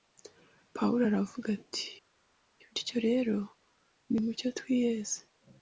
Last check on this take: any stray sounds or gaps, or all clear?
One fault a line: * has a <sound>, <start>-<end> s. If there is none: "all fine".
all fine